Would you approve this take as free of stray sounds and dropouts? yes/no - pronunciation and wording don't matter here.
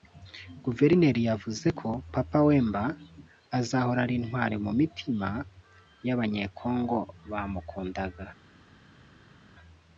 yes